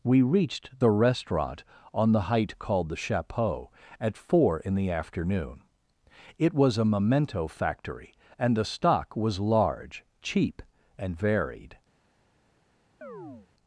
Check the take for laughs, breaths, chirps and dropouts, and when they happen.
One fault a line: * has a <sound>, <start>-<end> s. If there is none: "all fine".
* has a chirp, 13.0-13.5 s